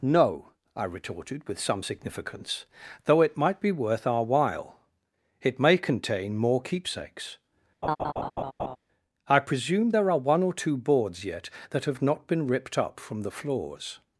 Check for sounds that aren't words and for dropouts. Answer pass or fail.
fail